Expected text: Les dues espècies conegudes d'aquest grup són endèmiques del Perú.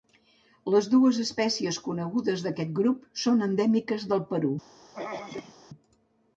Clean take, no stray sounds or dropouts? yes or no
no